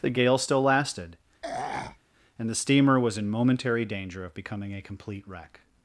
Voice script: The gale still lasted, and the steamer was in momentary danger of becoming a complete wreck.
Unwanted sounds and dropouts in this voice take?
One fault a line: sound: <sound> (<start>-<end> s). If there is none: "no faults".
sound: throat clearing (1.4-2.0 s)